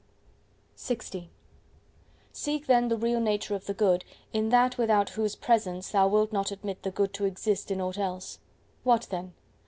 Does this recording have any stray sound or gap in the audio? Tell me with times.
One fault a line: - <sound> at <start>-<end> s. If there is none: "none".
none